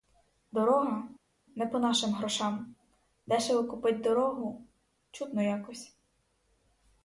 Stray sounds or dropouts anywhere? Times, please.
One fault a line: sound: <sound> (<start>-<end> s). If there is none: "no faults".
no faults